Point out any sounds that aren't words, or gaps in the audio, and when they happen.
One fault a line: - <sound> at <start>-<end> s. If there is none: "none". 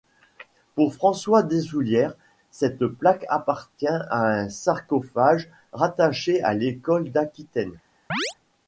- chirp at 8.1-8.3 s